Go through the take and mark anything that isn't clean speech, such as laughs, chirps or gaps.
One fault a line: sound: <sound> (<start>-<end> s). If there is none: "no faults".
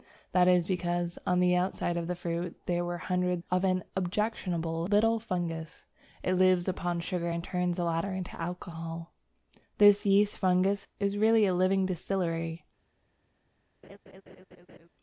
sound: laugh (13.8-14.9 s)